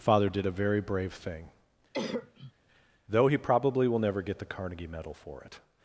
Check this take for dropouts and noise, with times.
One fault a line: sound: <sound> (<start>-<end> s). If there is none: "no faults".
sound: cough (1.9-2.5 s)